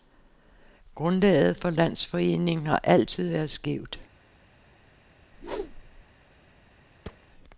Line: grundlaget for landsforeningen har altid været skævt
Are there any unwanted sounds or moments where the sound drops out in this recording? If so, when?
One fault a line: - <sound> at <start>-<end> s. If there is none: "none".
- whoosh at 5.3-6.0 s
- thud at 7.0-7.3 s